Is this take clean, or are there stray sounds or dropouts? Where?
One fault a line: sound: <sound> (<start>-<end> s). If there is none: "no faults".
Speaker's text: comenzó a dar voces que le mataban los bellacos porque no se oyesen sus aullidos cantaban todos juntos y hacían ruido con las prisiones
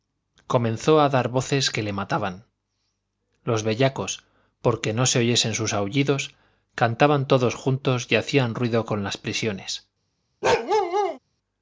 sound: bark (10.4-11.2 s)